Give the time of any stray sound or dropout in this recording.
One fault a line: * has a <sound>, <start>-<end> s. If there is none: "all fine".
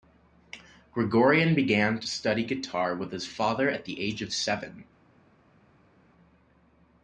all fine